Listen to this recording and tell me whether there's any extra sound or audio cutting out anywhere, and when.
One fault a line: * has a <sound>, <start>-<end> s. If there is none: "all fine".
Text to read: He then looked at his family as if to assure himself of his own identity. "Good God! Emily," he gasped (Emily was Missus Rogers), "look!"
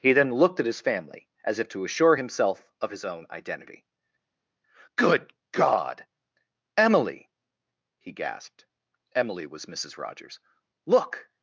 all fine